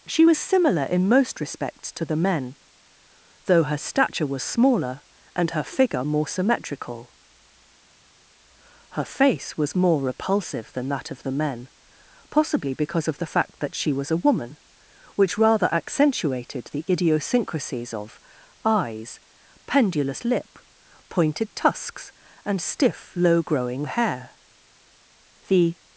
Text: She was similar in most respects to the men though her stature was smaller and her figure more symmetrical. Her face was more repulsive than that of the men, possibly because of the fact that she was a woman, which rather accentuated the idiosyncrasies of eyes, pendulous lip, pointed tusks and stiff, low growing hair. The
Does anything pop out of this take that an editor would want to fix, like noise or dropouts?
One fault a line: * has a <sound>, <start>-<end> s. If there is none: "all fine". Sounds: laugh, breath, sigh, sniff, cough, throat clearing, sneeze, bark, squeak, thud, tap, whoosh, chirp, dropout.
all fine